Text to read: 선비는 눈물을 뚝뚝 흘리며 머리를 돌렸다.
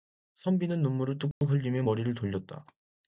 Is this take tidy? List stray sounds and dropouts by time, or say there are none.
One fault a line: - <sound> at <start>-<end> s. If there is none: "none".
- dropout at 1.3-1.4 s